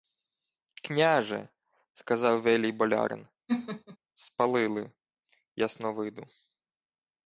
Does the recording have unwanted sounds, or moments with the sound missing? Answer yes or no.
yes